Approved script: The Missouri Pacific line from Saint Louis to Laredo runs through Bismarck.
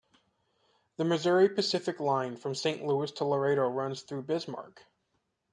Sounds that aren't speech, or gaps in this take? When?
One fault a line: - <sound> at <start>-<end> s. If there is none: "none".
none